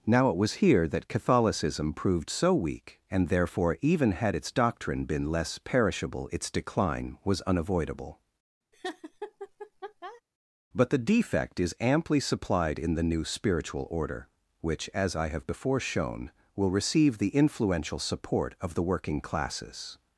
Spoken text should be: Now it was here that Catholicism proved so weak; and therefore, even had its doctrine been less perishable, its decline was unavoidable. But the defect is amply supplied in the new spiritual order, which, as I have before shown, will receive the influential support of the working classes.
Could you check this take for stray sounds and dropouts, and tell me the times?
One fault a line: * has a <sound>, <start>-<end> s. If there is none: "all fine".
* has a laugh, 8.7-10.2 s